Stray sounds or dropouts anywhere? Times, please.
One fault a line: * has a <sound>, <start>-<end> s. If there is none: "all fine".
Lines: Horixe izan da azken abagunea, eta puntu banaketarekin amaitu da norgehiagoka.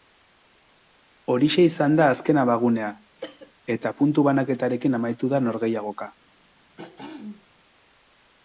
* has a cough, 3.2-3.5 s
* has a throat clearing, 6.8-7.5 s